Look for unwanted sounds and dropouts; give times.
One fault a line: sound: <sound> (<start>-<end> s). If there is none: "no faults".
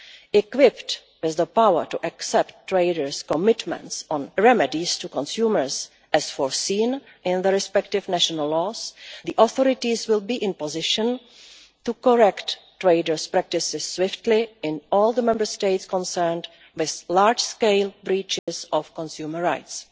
sound: dropout (18.4-18.5 s)